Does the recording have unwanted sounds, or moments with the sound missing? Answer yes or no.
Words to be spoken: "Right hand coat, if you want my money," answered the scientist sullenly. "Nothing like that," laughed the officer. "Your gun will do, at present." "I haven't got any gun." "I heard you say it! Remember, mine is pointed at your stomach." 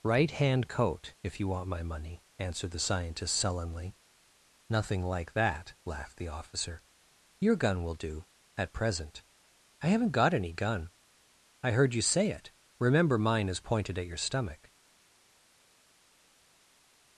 no